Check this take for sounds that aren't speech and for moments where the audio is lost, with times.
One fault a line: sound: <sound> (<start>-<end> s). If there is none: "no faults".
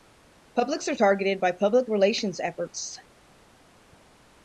no faults